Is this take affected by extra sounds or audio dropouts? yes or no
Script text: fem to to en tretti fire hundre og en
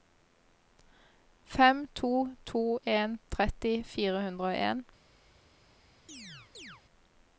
yes